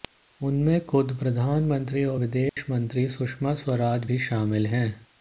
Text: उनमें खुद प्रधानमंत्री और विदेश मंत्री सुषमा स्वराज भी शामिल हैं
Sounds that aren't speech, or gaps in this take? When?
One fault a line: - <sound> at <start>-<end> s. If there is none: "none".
- dropout at 2.5-2.6 s